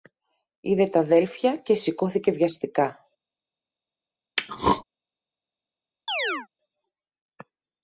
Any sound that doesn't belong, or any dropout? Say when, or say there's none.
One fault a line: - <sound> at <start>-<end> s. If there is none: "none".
- throat clearing at 4.4-4.8 s
- chirp at 6.1-6.5 s